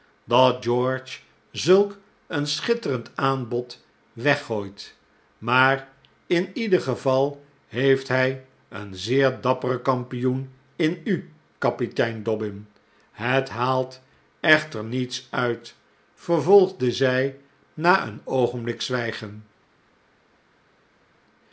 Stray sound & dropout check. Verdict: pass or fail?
pass